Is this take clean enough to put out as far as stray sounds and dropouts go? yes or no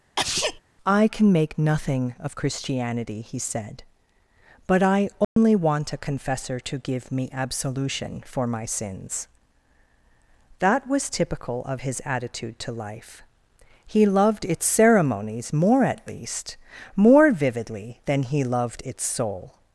no